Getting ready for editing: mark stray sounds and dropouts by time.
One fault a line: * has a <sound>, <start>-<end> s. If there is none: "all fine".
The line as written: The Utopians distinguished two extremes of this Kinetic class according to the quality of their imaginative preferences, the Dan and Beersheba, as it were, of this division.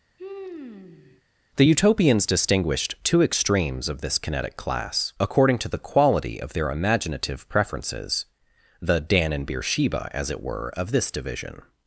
* has a sigh, 0.2-1.2 s